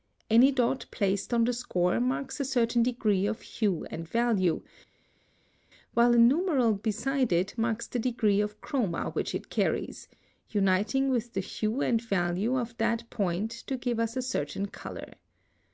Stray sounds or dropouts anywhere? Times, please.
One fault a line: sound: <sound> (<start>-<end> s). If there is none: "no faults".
no faults